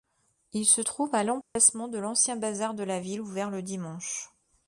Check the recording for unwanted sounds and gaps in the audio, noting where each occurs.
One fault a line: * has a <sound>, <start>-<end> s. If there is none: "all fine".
* has a dropout, 1.4-1.6 s